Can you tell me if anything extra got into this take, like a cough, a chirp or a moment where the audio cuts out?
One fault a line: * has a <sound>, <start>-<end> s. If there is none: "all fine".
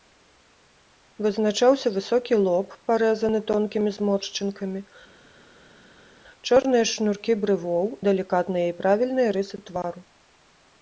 all fine